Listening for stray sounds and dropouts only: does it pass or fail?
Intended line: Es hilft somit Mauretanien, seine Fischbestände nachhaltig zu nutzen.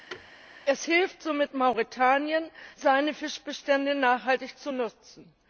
fail